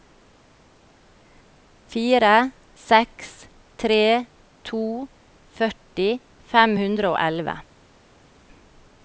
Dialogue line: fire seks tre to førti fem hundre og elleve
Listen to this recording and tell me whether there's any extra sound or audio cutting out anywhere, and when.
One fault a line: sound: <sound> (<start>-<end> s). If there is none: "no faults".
no faults